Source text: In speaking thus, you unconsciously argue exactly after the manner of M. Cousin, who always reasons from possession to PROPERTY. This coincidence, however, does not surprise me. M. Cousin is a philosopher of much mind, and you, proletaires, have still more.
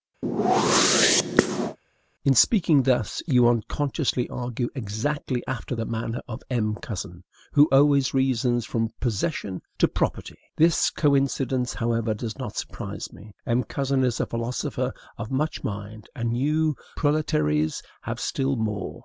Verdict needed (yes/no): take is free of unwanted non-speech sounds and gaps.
no